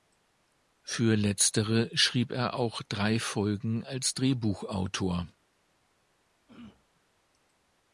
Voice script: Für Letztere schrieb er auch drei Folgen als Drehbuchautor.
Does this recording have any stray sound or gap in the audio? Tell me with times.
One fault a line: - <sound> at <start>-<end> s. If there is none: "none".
- throat clearing at 6.5-6.8 s